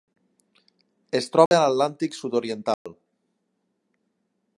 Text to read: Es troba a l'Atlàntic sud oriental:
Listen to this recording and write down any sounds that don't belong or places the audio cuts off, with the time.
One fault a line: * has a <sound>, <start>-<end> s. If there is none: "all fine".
* has a dropout, 1.5-1.5 s
* has a dropout, 2.7-2.9 s